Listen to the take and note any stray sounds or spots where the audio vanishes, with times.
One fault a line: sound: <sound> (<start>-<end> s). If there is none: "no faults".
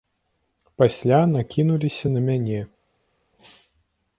no faults